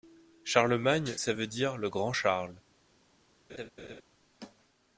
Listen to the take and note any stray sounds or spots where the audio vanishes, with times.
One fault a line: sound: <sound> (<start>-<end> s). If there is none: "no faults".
sound: laugh (3.5-4.0 s)